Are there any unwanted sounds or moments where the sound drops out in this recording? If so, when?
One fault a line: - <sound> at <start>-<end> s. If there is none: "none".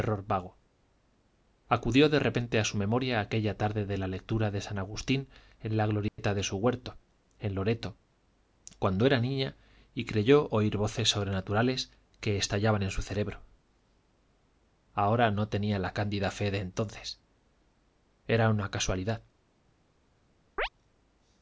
- dropout at 6.1-6.2 s
- chirp at 20.6-20.7 s